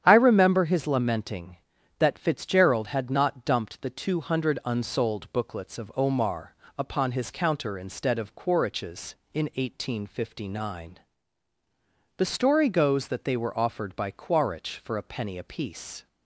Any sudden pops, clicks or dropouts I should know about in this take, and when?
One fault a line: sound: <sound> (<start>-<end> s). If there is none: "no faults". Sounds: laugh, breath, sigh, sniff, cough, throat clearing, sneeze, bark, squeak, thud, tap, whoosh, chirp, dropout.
no faults